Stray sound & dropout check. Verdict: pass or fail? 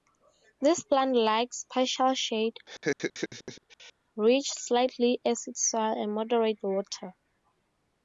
fail